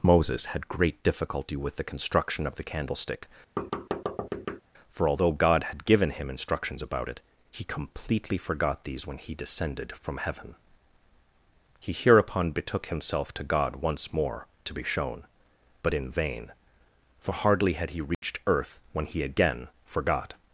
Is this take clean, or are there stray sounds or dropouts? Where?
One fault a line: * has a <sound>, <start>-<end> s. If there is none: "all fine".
* has a thud, 3.6-4.6 s
* has a dropout, 18.1-18.2 s